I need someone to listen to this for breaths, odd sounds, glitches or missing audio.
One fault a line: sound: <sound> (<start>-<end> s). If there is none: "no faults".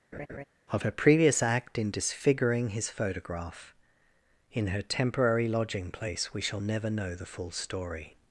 sound: laugh (0.1-0.4 s)